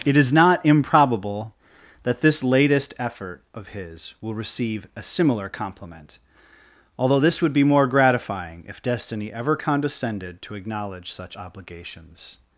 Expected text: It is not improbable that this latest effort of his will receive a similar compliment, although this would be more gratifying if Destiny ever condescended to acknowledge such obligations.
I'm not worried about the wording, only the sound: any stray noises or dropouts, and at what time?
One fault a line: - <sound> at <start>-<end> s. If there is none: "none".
none